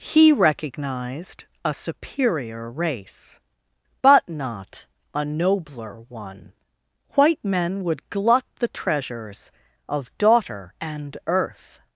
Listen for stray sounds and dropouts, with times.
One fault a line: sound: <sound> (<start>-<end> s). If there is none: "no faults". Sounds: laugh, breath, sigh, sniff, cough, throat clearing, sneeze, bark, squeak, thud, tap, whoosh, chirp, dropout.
no faults